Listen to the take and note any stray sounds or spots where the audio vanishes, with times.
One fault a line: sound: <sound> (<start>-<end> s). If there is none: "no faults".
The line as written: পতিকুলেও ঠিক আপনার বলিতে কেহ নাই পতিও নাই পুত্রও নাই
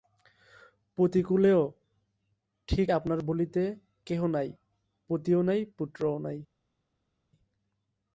no faults